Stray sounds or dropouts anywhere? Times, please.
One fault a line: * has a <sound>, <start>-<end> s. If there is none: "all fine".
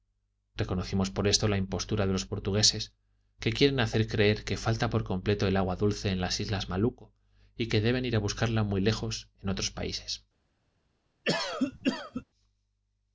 * has a cough, 11.2-12.2 s